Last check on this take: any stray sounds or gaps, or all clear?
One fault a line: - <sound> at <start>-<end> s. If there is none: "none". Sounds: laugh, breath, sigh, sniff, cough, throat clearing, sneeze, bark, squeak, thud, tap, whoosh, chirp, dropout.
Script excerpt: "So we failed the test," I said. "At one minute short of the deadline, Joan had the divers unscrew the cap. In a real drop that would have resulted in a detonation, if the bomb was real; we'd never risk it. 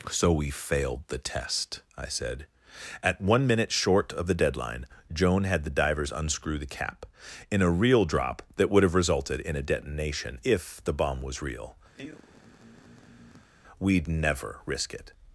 - sigh at 11.9-13.5 s